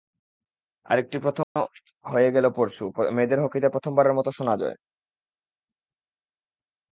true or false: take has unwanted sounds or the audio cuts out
true